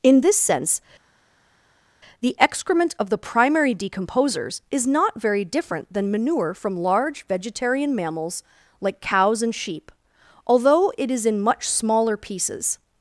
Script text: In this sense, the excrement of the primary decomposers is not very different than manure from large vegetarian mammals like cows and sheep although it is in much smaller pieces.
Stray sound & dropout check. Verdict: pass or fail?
pass